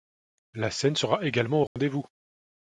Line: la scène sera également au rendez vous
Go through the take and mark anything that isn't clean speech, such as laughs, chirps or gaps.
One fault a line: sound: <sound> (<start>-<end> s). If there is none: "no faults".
sound: dropout (1.7-1.8 s)